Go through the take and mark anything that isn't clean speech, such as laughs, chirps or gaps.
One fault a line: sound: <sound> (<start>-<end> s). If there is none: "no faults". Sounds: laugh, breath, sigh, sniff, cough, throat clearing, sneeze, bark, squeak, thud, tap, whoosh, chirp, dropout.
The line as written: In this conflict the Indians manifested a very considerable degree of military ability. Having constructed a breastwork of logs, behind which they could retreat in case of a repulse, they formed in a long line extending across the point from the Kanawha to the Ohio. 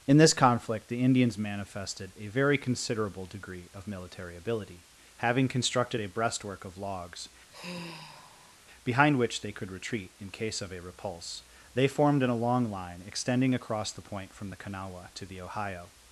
sound: sigh (7.5-8.6 s)